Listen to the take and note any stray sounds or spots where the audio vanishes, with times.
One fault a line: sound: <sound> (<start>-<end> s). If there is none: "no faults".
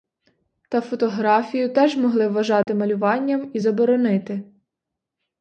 sound: dropout (2.6-2.7 s)